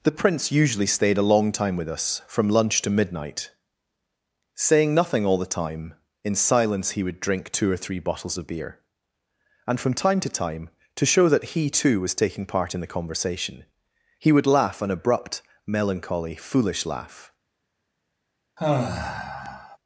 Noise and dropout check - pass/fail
fail